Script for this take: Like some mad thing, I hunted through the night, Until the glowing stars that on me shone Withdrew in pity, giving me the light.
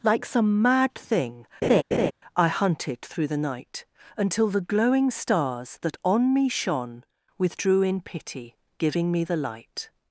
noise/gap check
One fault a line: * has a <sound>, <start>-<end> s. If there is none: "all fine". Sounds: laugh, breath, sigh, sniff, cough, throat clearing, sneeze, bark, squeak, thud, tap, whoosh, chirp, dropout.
* has a laugh, 1.6-2.1 s